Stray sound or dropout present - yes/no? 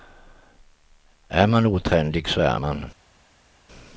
no